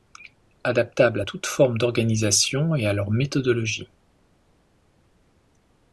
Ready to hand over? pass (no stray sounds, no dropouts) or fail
pass